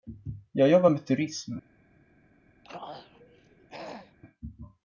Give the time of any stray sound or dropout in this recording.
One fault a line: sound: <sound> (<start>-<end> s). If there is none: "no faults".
sound: throat clearing (2.6-4.2 s)